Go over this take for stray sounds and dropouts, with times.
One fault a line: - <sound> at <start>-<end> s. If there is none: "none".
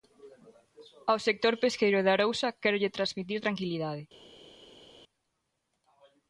none